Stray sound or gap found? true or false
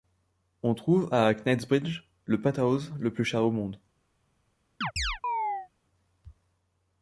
true